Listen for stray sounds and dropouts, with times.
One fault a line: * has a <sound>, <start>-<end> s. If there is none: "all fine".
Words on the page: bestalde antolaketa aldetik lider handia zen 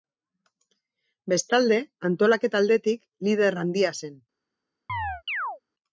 * has a chirp, 4.9-5.6 s